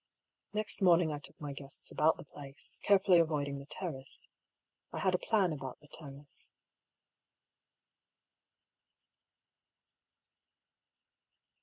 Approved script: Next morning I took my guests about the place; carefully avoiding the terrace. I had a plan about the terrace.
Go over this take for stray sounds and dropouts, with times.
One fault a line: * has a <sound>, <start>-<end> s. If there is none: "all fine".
all fine